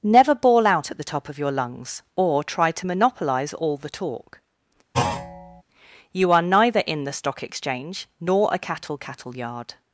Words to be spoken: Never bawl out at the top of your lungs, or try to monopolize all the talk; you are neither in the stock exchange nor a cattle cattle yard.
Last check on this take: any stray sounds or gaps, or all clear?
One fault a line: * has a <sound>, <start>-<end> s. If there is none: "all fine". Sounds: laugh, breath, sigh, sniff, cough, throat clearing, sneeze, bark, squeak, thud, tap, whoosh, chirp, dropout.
* has a thud, 4.9-5.6 s